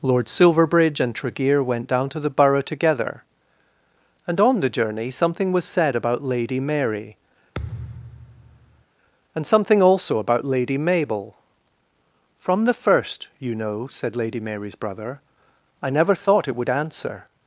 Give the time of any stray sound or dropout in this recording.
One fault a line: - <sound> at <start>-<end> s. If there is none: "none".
- thud at 7.5-8.8 s